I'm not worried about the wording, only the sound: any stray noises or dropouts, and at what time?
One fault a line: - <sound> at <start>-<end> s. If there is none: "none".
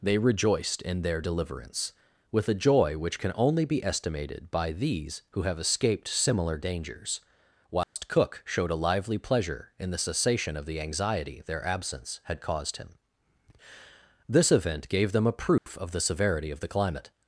- dropout at 7.8-8.0 s
- dropout at 15.6-15.7 s